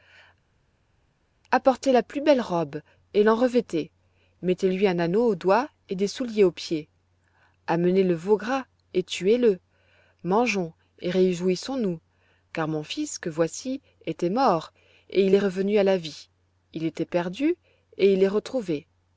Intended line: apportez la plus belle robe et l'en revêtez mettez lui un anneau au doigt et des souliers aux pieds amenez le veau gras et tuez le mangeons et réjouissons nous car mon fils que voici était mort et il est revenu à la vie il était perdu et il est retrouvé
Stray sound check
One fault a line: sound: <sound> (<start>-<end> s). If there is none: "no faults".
no faults